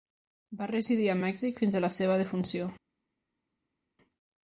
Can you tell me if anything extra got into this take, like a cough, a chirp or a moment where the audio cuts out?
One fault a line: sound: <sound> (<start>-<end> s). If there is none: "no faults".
no faults